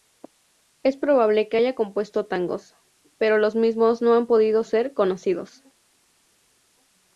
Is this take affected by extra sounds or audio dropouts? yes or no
no